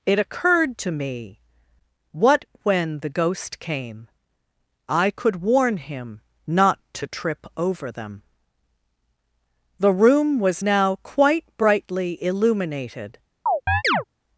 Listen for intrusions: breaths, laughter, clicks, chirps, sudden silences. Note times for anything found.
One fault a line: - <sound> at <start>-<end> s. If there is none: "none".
- chirp at 13.5-14.0 s